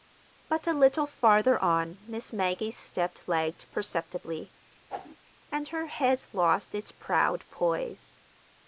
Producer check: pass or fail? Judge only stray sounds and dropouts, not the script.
fail